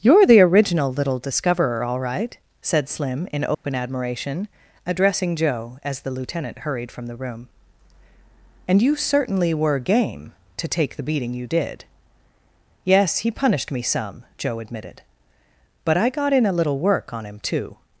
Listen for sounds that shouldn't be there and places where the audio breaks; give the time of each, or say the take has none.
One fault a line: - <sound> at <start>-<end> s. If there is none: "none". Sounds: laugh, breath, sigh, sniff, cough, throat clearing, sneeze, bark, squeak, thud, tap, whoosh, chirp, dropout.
- dropout at 3.5-3.6 s